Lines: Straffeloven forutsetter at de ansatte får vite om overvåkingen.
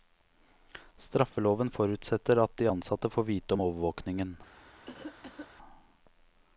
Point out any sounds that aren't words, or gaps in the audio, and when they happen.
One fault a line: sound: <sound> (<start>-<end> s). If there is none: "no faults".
sound: cough (4.8-5.5 s)